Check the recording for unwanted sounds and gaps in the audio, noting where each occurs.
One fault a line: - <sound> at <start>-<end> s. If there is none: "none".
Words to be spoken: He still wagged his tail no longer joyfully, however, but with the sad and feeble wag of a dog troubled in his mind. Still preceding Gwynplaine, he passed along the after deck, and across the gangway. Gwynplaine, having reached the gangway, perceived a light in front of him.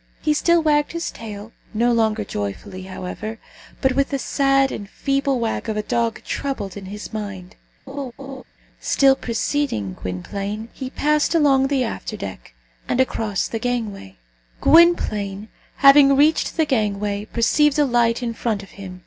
- laugh at 7.9-8.4 s